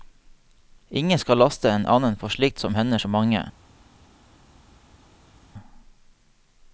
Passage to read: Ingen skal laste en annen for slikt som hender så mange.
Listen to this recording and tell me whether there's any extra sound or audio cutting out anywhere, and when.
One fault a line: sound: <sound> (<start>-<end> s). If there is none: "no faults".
no faults